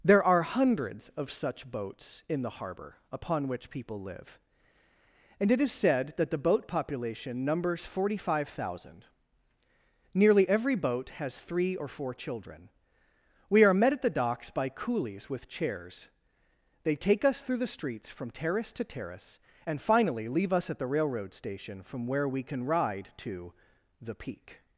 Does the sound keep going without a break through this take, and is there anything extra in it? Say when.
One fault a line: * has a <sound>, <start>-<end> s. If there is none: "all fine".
all fine